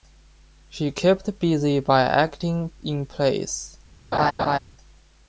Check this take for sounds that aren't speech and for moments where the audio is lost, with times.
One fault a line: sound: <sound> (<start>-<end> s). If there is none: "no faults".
sound: laugh (4.1-4.6 s)